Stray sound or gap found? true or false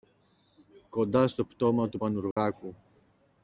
true